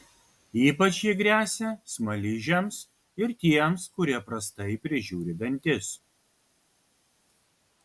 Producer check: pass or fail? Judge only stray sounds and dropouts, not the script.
pass